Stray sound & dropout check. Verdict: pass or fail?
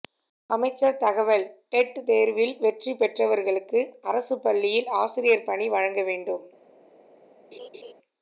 fail